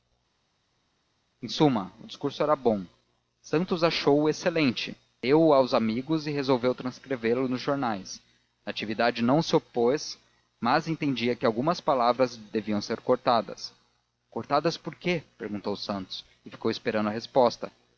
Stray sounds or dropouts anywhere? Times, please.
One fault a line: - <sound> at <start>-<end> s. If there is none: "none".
none